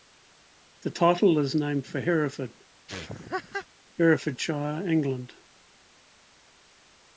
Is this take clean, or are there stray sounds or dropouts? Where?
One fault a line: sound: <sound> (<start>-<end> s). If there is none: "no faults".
sound: laugh (2.9-3.7 s)